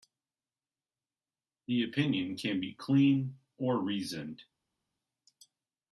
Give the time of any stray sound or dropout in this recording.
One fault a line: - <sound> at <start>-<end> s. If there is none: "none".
none